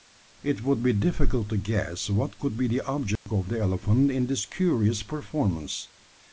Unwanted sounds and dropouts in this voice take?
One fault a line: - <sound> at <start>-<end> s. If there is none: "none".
- dropout at 3.2-3.3 s